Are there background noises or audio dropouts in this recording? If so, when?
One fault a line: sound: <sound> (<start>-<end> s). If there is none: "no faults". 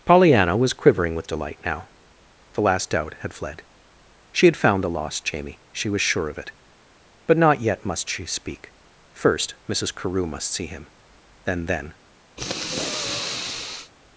sound: sniff (12.4-13.9 s)